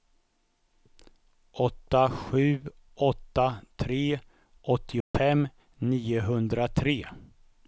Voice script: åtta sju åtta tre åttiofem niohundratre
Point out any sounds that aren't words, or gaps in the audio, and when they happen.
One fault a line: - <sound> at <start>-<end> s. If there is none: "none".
- dropout at 5.0-5.1 s